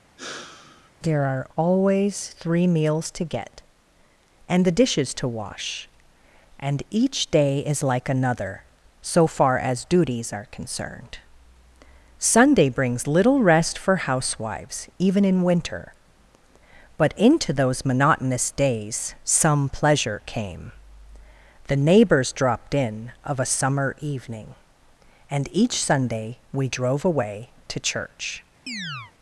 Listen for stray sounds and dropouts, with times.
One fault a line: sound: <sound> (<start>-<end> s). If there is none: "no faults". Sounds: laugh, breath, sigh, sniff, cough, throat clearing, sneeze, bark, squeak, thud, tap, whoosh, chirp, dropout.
sound: sigh (0.2-0.9 s)
sound: chirp (28.7-29.1 s)